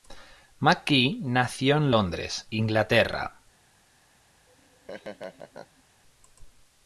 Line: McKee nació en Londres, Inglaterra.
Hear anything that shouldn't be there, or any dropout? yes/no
yes